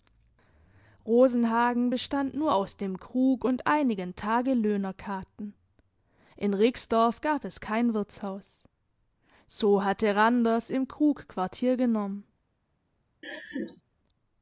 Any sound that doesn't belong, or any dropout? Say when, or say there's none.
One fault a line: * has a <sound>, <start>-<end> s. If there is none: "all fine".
* has a laugh, 13.2-13.8 s